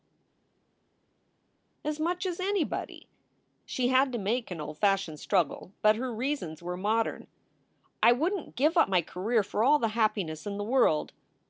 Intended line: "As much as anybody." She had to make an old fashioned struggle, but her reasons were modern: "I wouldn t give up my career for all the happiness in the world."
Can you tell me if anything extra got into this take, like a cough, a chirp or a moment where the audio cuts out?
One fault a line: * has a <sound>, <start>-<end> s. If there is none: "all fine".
all fine